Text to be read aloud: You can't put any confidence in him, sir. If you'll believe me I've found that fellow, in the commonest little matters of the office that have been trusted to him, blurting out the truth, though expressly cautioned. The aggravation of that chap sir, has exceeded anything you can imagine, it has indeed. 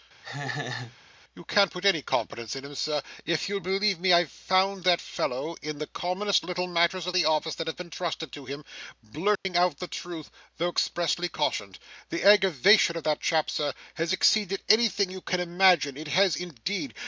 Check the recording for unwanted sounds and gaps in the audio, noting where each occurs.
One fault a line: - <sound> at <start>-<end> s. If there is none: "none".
- laugh at 0.2-1.0 s
- dropout at 9.4-9.5 s